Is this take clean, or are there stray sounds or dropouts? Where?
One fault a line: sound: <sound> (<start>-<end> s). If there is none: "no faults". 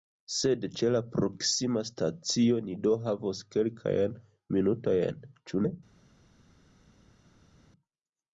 no faults